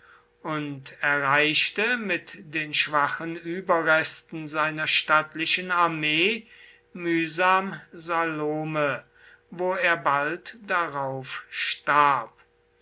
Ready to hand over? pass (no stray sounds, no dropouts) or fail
pass